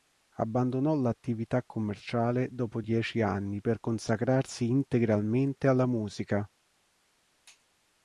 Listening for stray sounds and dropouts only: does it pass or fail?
pass